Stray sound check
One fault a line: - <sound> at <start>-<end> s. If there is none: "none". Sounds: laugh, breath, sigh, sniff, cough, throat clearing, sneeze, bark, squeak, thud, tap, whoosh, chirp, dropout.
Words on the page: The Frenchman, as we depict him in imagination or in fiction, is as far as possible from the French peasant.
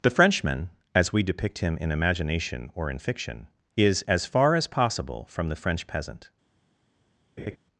- laugh at 7.4-7.6 s